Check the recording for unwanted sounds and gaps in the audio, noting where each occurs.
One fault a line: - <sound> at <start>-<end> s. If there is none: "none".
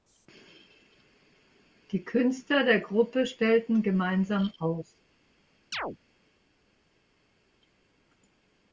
- chirp at 5.7-6.0 s